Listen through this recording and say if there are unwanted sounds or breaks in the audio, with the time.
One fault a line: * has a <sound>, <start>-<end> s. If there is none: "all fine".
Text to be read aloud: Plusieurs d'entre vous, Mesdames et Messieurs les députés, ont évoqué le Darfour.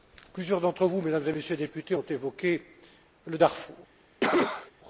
* has a cough, 4.2-4.7 s